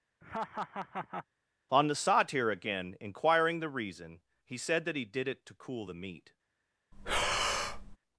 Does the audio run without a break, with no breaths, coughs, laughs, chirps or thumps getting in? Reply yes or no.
no